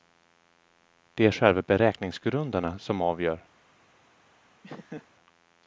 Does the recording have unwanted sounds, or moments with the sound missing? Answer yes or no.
yes